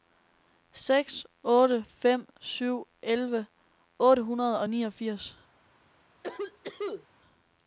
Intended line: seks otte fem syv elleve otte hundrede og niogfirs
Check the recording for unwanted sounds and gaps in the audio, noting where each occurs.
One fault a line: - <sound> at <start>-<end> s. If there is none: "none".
- cough at 6.2-7.1 s